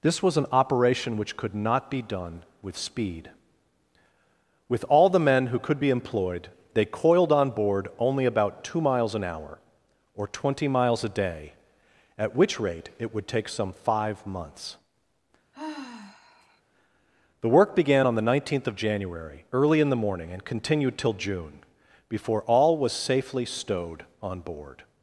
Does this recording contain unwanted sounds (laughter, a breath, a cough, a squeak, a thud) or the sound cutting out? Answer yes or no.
yes